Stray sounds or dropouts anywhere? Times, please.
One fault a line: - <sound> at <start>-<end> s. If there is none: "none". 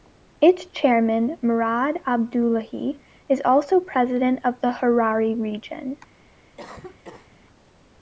- cough at 6.6-7.4 s